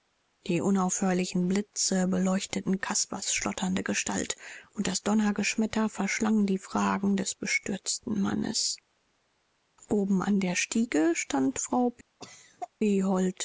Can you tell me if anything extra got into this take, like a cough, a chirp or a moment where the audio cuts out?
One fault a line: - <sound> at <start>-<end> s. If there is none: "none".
- cough at 12.2-12.7 s